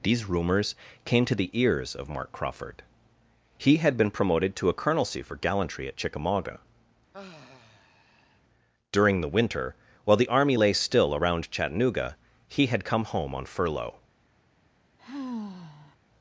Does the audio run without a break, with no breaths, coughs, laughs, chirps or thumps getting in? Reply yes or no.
no